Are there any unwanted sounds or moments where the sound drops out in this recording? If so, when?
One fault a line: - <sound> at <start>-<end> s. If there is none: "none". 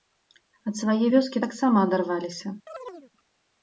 - chirp at 2.7-3.1 s